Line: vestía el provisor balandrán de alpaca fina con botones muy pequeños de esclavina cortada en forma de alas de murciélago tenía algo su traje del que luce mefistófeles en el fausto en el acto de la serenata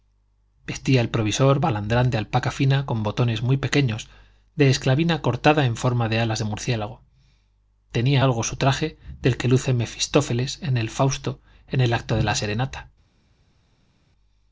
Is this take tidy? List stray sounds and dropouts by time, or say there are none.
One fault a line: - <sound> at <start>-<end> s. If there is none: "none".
none